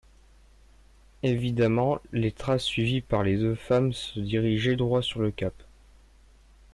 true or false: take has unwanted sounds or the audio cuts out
false